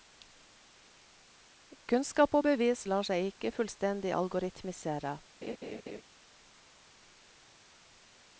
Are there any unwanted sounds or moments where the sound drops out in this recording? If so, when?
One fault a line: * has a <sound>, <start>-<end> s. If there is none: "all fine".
* has a laugh, 5.4-6.0 s